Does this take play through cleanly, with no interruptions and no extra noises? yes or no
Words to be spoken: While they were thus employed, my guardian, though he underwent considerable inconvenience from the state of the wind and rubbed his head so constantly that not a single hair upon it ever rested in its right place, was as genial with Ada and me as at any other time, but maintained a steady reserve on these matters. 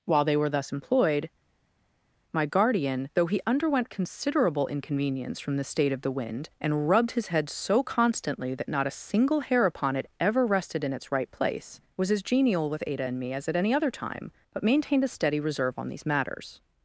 yes